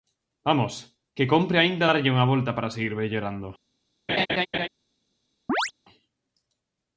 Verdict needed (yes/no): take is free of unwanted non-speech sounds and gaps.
no